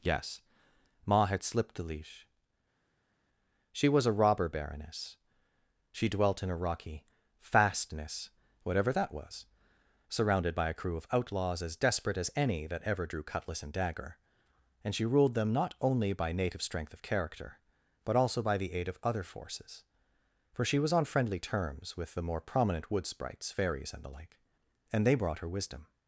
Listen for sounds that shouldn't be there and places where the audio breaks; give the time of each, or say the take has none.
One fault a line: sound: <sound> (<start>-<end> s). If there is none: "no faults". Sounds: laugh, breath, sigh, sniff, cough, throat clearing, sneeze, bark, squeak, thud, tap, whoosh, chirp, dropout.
no faults